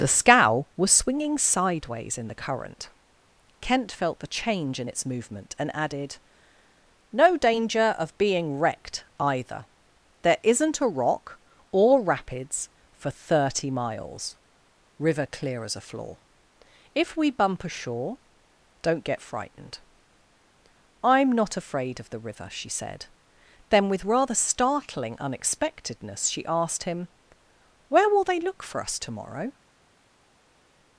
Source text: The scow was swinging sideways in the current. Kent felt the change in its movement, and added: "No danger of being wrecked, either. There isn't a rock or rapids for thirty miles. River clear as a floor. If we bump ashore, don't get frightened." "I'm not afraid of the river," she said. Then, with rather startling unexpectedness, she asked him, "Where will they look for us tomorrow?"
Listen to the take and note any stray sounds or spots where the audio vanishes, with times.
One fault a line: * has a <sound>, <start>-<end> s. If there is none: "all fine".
all fine